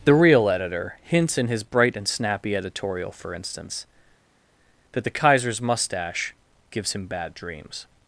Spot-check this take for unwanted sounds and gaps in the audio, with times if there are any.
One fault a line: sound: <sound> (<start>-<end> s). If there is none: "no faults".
no faults